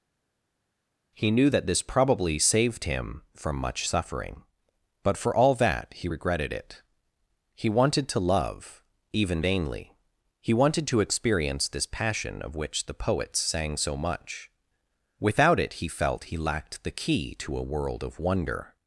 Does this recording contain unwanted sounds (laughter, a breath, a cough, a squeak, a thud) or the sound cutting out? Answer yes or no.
no